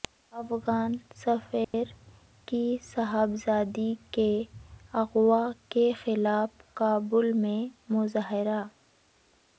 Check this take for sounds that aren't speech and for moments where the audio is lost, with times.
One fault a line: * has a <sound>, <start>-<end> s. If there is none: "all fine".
* has a dropout, 1.6-1.7 s